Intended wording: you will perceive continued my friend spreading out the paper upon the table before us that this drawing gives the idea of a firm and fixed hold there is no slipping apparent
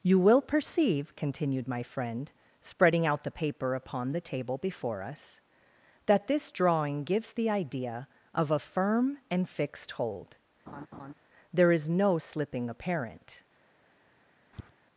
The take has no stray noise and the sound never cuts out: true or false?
false